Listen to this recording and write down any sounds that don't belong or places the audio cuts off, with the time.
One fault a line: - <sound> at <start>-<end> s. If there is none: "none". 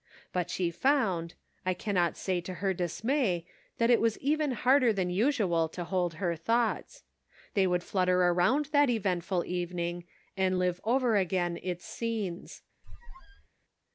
- squeak at 12.8-13.5 s